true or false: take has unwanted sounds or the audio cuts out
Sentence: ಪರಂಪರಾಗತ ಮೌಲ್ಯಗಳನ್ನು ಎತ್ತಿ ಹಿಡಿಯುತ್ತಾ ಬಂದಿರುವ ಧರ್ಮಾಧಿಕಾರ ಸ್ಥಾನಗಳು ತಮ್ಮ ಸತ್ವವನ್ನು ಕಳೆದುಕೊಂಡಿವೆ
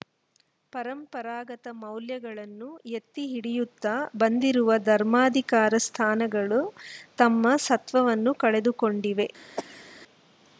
true